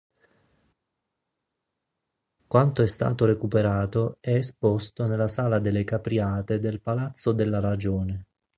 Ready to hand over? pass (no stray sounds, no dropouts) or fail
pass